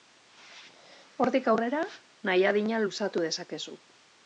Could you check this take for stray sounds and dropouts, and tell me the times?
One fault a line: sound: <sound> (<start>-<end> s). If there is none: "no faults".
no faults